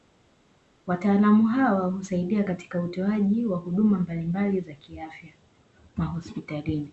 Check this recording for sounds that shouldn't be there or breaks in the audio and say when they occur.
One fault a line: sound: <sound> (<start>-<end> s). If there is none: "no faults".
no faults